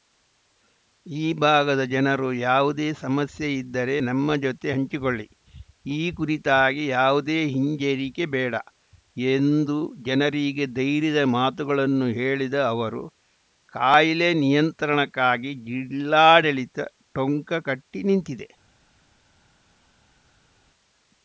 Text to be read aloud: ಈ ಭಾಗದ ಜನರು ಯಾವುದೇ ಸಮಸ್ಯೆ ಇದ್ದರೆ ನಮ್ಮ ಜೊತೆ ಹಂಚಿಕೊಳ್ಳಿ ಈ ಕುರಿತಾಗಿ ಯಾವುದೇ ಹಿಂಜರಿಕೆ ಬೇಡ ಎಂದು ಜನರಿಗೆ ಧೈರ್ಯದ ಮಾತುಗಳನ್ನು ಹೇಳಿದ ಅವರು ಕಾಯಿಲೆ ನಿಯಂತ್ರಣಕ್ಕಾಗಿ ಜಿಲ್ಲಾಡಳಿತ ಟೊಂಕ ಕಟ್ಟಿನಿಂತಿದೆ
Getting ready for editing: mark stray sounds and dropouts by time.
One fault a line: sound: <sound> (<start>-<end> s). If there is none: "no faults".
no faults